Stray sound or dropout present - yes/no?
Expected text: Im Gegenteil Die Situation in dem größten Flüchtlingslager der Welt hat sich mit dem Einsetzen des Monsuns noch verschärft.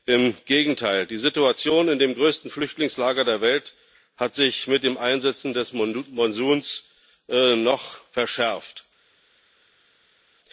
no